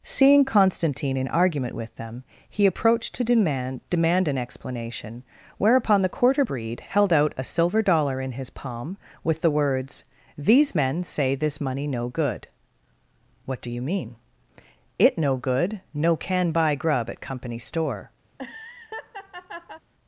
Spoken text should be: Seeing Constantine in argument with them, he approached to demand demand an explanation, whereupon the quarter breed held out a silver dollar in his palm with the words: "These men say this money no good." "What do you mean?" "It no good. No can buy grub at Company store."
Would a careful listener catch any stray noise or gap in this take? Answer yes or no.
yes